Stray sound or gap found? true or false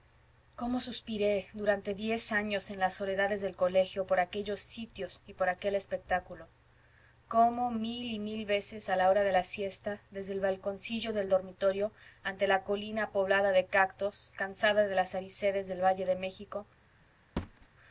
true